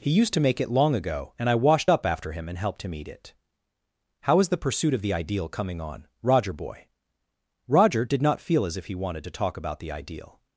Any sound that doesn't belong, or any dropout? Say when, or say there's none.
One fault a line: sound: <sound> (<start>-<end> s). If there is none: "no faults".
no faults